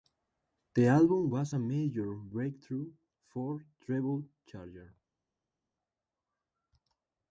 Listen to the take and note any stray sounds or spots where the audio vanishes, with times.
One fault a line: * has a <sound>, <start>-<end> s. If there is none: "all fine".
all fine